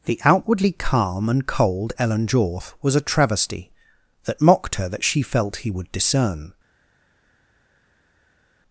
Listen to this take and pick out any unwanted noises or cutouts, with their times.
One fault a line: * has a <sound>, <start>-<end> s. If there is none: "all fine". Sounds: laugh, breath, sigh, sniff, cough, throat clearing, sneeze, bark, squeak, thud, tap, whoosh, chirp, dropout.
all fine